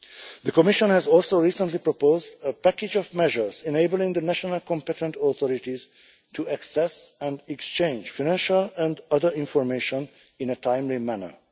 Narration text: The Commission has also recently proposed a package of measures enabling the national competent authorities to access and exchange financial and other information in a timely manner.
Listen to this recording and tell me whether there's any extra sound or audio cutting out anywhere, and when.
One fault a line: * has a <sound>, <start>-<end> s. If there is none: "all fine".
all fine